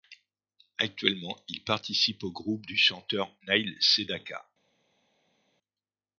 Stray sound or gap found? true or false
false